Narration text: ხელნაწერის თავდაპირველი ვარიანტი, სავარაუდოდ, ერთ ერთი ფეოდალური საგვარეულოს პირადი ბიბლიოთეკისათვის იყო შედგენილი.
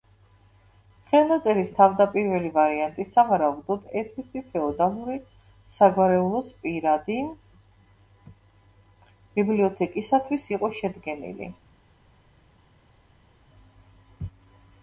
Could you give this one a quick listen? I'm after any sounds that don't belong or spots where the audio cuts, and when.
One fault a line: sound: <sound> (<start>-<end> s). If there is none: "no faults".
no faults